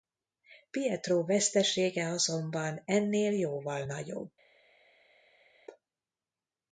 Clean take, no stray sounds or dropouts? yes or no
yes